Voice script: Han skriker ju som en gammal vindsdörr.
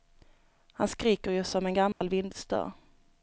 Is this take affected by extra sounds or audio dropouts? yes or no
yes